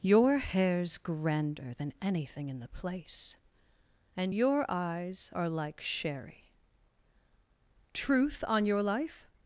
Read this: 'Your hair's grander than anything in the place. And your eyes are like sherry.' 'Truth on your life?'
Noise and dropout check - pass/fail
pass